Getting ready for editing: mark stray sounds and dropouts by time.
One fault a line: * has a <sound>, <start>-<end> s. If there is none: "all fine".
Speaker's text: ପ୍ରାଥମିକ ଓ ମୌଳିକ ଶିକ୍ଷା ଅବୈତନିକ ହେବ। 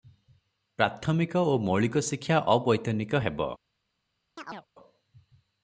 * has a chirp, 4.4-4.7 s